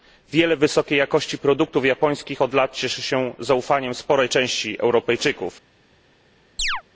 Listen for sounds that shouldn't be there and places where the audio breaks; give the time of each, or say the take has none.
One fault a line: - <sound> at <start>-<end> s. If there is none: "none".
- chirp at 6.6-6.8 s